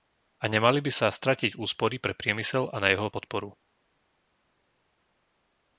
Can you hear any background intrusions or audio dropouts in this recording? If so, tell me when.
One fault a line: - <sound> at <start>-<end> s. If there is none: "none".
none